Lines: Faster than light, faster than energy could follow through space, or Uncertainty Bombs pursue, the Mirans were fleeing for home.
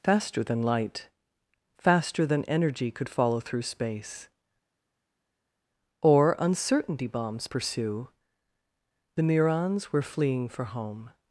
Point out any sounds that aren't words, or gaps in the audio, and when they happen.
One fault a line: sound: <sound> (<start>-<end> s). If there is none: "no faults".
no faults